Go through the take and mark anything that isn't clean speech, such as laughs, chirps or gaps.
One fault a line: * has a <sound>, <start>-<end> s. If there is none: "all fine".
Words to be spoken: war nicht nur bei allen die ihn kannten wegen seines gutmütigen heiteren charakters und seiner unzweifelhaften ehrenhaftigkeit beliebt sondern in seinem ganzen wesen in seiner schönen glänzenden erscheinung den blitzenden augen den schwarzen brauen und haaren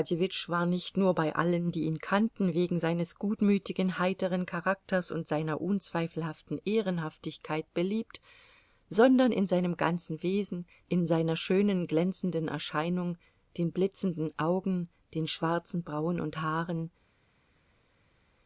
all fine